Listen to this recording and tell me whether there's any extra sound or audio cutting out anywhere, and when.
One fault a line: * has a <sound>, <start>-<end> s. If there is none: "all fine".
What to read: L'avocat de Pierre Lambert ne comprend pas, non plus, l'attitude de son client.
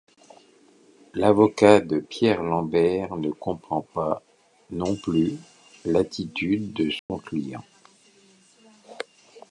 * has a dropout, 7.0-7.1 s